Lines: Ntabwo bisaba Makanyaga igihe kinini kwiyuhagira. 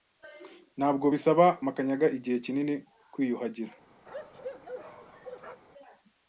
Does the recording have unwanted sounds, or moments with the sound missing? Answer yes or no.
yes